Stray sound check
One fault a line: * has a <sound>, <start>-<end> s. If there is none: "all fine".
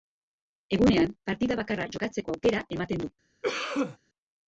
* has a cough, 3.4-4.0 s